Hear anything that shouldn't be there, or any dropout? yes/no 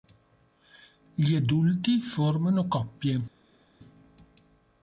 no